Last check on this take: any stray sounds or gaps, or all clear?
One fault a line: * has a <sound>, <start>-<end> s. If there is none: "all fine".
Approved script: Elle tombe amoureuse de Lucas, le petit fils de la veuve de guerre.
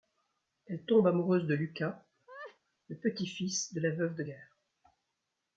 * has a laugh, 2.3-2.6 s